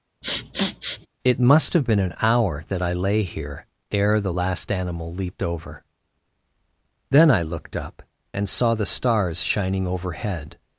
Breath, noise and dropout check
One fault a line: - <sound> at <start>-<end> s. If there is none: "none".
- sniff at 0.2-1.1 s